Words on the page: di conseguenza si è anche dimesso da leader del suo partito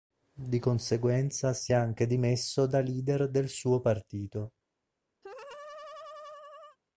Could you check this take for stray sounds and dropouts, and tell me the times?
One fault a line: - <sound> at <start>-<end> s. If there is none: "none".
- laugh at 5.2-6.8 s